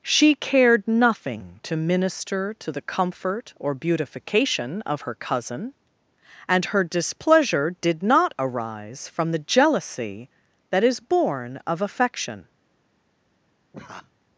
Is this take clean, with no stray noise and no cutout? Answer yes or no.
no